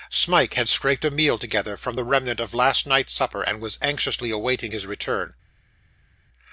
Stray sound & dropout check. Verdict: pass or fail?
pass